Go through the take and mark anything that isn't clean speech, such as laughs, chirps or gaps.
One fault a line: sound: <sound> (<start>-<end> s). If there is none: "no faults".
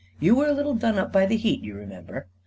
no faults